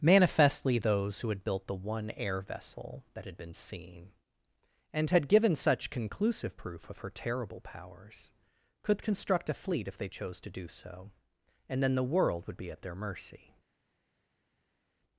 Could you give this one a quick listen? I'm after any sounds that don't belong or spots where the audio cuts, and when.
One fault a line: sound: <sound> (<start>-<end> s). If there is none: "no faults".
no faults